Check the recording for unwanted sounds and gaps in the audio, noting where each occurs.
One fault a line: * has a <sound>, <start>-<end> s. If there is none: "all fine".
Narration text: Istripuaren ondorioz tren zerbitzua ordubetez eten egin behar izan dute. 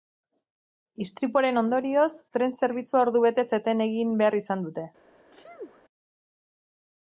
* has a sneeze, 5.3-5.8 s